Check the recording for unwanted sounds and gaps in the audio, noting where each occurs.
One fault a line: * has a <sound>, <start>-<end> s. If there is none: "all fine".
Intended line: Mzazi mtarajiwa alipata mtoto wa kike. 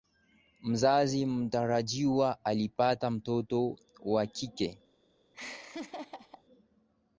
* has a laugh, 5.3-6.4 s